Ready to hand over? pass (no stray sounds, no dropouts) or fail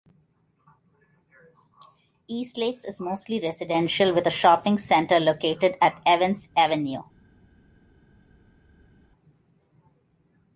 pass